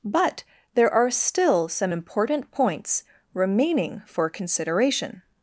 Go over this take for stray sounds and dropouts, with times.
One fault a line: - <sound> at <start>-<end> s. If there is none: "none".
none